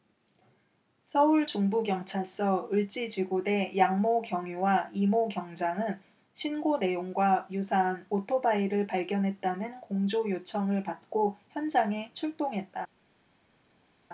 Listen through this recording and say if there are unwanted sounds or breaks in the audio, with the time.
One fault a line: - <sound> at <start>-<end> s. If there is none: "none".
none